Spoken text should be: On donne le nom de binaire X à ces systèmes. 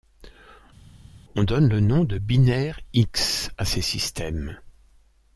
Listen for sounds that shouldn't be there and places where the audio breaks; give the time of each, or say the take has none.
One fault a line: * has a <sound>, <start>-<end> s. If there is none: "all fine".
all fine